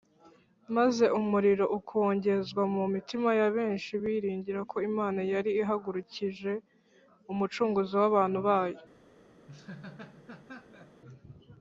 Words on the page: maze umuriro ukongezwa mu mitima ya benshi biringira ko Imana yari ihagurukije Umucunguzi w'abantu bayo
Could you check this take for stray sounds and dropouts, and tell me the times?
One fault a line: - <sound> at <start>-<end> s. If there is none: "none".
- laugh at 9.5-11.0 s